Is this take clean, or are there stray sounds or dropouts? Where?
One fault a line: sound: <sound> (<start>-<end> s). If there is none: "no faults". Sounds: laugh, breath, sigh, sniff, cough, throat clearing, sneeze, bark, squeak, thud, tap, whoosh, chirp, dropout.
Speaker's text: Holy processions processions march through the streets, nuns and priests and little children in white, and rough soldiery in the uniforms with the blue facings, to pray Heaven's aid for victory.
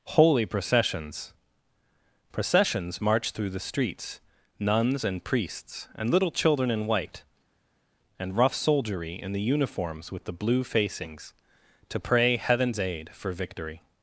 no faults